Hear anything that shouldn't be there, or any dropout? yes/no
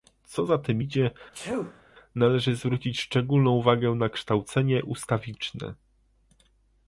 yes